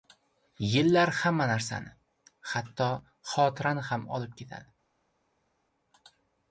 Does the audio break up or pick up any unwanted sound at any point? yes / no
no